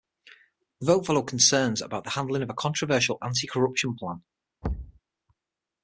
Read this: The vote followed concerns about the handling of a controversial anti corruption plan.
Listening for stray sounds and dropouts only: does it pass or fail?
fail